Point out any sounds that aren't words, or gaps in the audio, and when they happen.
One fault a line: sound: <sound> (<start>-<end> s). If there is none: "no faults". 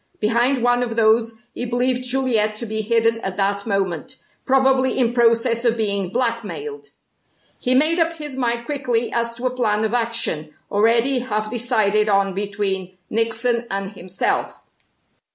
no faults